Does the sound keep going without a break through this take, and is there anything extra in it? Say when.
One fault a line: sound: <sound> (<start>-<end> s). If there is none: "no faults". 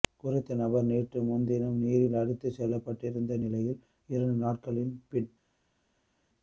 no faults